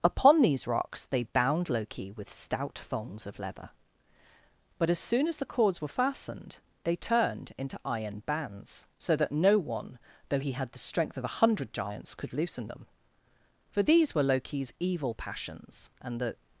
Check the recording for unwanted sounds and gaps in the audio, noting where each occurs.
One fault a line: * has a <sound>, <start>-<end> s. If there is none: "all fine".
all fine